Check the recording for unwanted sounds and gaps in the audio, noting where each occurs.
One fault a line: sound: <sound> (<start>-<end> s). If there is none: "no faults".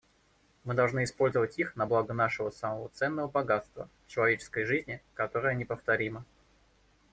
no faults